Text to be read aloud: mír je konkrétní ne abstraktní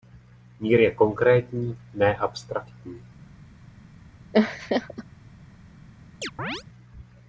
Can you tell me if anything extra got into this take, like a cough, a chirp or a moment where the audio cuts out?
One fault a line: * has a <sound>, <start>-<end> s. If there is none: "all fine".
* has a laugh, 4.3-5.0 s
* has a chirp, 6.2-6.6 s